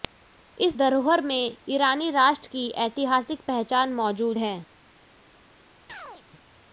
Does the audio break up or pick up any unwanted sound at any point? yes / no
yes